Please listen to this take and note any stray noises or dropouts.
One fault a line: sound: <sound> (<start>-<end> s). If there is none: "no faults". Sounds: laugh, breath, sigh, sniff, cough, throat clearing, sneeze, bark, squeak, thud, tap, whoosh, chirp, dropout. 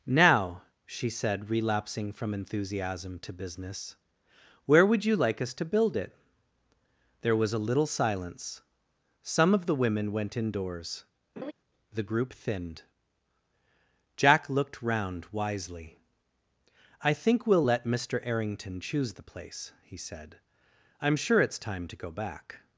sound: laugh (11.4-11.5 s)